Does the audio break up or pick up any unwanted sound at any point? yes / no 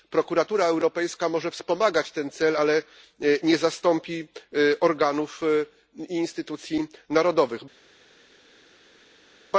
no